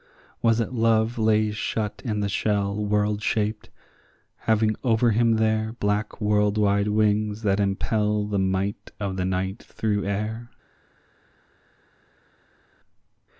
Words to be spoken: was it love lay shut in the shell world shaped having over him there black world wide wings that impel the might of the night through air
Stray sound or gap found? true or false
false